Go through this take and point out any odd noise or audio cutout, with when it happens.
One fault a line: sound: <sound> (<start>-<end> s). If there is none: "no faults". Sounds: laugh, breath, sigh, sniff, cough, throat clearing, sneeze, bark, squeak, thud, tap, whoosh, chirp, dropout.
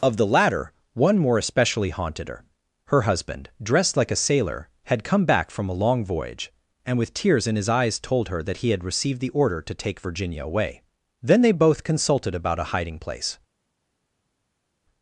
no faults